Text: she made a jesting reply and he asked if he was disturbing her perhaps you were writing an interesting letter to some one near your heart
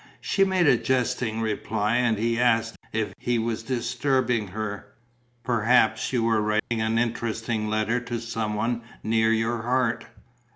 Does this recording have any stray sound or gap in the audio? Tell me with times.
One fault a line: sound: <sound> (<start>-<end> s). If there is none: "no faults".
sound: dropout (6.6-6.7 s)